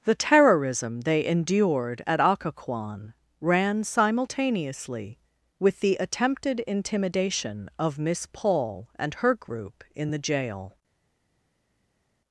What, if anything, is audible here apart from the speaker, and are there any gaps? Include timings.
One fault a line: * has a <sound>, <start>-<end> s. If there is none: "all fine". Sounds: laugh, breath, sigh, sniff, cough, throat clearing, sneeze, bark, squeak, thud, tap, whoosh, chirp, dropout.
all fine